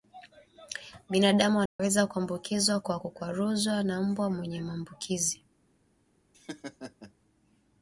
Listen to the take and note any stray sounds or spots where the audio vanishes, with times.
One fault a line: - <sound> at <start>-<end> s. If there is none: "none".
- dropout at 1.7-1.8 s
- laugh at 6.3-7.1 s